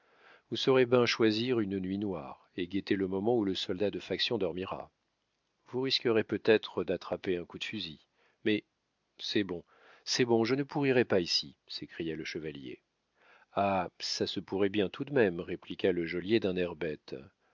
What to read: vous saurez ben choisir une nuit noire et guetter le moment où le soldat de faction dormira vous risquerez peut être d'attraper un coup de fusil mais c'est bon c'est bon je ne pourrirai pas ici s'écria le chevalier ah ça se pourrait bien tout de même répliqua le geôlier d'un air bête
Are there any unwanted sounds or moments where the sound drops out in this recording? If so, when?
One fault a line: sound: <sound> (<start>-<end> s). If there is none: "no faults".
no faults